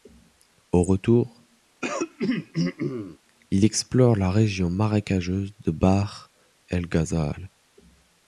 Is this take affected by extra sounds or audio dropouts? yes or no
yes